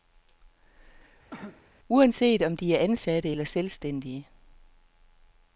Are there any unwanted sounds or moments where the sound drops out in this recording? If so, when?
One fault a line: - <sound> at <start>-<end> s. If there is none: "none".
- cough at 1.3-1.7 s